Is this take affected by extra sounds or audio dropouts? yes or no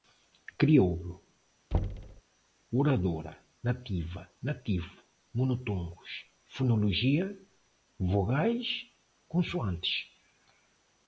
yes